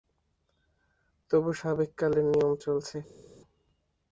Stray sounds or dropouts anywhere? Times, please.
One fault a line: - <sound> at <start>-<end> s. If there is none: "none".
none